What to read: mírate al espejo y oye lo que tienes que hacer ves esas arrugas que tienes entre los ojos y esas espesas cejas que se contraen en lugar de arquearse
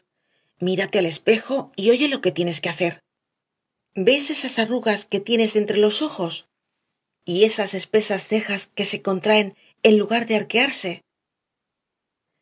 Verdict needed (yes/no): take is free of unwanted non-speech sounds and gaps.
yes